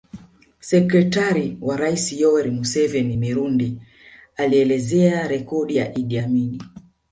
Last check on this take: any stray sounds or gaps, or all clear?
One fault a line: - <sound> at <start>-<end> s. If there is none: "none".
none